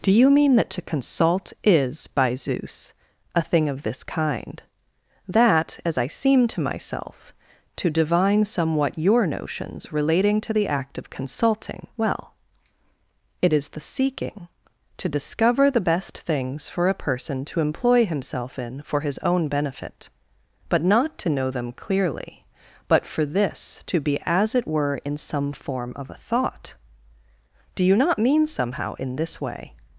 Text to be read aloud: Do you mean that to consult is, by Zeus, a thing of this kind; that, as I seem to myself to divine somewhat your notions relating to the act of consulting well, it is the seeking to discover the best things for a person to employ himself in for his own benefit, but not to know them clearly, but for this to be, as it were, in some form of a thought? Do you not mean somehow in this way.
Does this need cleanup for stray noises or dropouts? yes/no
no